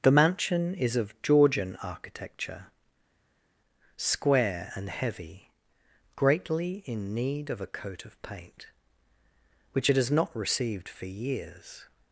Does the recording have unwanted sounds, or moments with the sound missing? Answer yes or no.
no